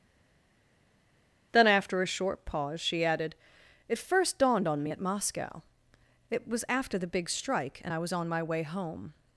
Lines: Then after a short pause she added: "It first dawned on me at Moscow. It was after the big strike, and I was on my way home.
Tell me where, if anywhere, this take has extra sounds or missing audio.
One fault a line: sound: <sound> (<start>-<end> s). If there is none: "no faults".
no faults